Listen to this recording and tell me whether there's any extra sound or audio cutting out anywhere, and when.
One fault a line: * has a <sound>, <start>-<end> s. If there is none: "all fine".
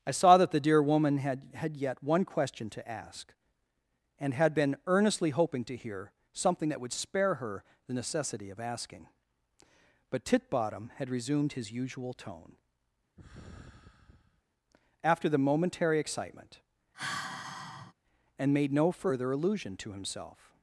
* has a sigh, 13.2-14.4 s
* has a sigh, 16.9-17.9 s